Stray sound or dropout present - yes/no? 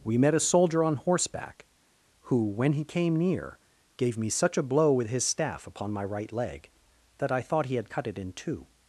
no